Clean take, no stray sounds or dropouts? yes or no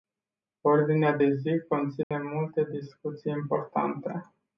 no